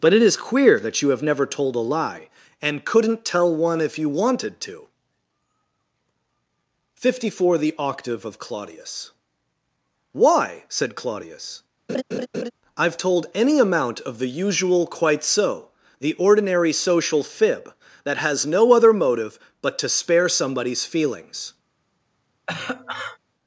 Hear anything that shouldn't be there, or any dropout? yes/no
yes